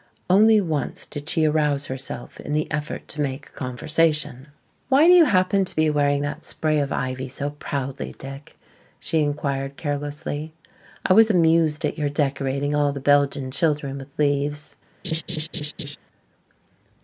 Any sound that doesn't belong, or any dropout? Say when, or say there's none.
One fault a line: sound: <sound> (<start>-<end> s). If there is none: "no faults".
sound: laugh (15.0-16.0 s)